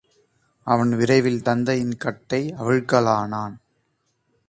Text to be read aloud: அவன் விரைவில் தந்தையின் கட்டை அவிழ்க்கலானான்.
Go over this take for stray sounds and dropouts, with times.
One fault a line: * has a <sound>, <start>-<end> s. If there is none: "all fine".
all fine